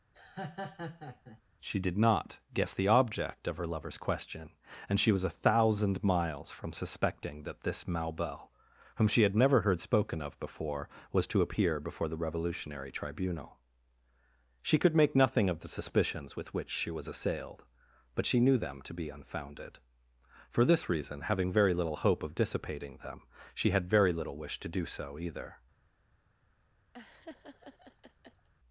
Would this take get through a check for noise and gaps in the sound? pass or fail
fail